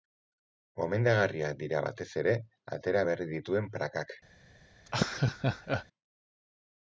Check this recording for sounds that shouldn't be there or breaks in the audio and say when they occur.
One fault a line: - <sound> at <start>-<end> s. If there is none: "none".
- laugh at 4.9-5.9 s